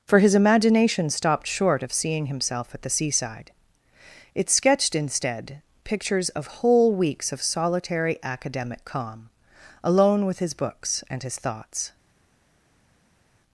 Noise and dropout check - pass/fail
pass